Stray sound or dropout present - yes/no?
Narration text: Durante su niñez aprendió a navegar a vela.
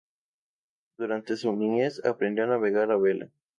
no